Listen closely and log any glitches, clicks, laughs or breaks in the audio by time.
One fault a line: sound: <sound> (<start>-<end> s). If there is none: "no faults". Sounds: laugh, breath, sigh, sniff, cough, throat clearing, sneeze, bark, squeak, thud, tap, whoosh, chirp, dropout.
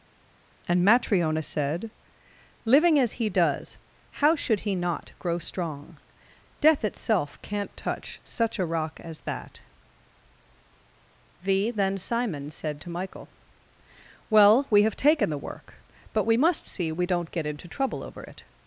no faults